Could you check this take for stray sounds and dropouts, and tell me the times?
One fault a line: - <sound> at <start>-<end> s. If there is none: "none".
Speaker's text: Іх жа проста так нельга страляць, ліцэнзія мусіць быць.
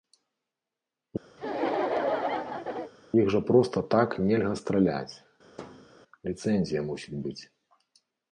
- laugh at 1.4-2.9 s
- thud at 5.5-5.9 s